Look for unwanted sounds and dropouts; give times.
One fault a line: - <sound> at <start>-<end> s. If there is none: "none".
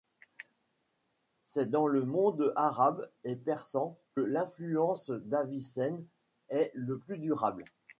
none